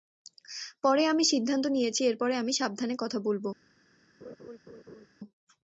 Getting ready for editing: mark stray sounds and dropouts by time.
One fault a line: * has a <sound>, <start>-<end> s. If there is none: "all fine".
* has a laugh, 4.2-5.1 s